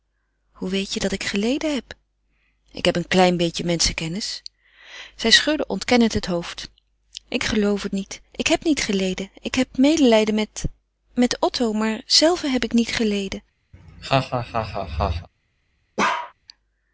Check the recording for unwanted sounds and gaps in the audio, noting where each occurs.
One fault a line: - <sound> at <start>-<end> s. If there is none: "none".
- laugh at 13.7-15.3 s
- bark at 16.0-16.3 s